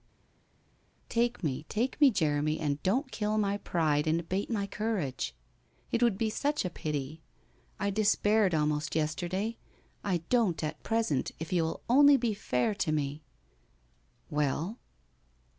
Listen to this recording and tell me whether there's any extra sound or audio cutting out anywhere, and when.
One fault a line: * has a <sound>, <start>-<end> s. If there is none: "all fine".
all fine